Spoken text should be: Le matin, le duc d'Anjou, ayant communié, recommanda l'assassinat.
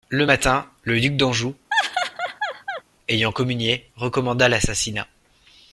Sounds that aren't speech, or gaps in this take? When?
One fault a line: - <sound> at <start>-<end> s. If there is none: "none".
- laugh at 1.7-2.8 s